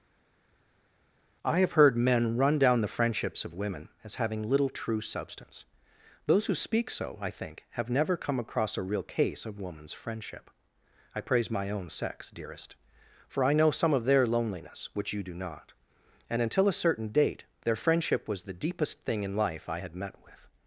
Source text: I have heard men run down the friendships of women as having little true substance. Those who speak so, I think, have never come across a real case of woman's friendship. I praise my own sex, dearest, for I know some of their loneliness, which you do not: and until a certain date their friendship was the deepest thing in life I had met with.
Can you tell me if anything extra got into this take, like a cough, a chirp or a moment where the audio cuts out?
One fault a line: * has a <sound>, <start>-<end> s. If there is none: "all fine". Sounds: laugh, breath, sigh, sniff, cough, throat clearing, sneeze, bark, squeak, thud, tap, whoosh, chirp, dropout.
all fine